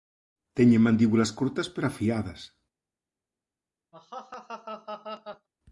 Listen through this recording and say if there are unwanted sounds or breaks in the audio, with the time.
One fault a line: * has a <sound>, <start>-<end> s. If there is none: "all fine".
* has a laugh, 3.9-5.5 s